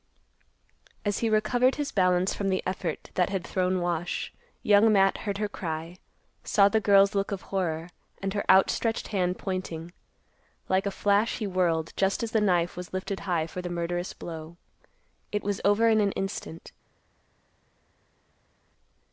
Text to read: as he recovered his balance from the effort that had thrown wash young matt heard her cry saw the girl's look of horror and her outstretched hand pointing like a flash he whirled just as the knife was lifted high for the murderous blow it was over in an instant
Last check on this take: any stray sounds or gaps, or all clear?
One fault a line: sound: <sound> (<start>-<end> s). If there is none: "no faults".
no faults